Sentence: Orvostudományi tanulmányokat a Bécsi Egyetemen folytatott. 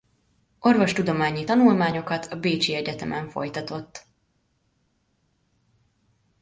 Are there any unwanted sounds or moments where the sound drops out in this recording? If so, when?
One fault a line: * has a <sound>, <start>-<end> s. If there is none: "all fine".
all fine